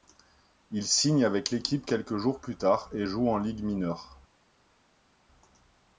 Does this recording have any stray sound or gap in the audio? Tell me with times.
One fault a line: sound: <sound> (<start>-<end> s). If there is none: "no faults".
no faults